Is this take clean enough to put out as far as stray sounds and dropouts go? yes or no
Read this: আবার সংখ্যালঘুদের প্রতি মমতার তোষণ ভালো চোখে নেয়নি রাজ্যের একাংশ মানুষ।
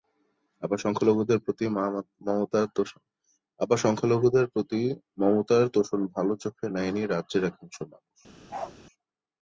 no